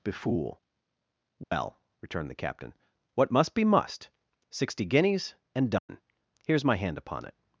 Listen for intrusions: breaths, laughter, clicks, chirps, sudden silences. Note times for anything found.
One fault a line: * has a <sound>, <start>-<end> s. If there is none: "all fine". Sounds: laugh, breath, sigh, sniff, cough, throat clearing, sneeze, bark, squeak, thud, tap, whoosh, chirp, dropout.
* has a dropout, 1.4-1.5 s
* has a dropout, 5.8-5.9 s